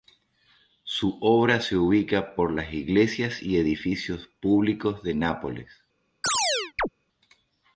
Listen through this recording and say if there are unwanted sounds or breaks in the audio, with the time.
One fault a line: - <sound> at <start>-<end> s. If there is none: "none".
- chirp at 6.2-6.9 s